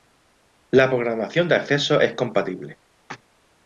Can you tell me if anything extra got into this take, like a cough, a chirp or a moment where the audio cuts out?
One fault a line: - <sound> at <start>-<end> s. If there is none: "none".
none